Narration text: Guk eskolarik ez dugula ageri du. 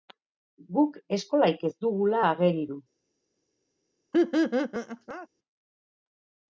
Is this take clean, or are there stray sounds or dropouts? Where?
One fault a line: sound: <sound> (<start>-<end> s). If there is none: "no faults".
sound: laugh (4.1-5.3 s)